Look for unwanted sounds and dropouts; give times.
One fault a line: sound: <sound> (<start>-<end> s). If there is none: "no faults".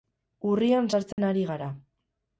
sound: dropout (1.1-1.2 s)